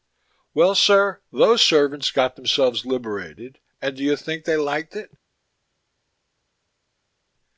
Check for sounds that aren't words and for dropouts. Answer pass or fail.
pass